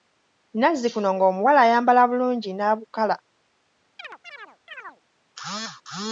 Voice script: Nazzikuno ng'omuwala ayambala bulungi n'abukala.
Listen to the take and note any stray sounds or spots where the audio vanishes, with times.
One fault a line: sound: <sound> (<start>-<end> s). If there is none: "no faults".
sound: chirp (4.0-5.0 s)